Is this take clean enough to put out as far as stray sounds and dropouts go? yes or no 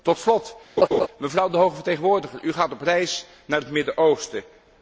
no